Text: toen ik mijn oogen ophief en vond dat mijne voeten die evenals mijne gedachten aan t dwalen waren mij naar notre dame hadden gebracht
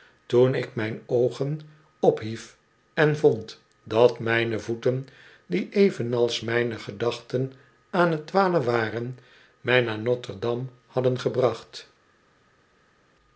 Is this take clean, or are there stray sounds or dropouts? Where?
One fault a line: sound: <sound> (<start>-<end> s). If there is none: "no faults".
no faults